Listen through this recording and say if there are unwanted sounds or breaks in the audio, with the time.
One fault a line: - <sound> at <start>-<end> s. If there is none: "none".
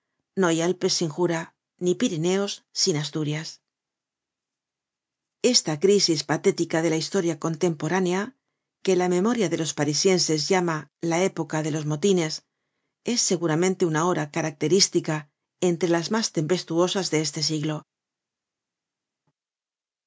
none